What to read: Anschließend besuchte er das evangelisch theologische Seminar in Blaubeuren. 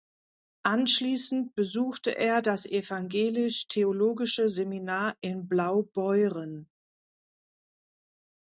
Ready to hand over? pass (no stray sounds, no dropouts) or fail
pass